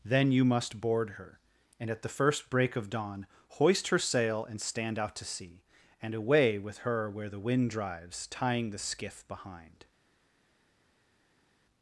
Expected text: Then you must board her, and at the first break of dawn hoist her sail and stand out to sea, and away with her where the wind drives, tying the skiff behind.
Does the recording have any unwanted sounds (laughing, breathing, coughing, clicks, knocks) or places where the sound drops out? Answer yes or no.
no